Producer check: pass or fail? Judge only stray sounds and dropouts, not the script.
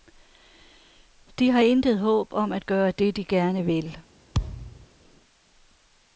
fail